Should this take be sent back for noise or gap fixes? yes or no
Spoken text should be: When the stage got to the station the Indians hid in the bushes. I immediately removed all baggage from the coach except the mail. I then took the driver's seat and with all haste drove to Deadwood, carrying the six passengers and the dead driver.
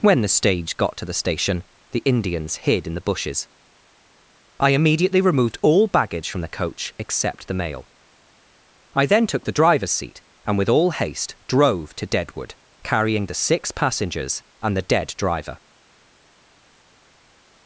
no